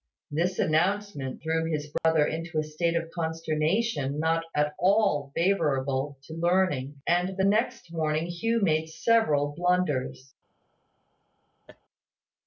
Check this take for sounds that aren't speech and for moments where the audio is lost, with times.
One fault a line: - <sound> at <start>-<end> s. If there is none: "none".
- dropout at 2.0-2.0 s
- laugh at 11.7-11.8 s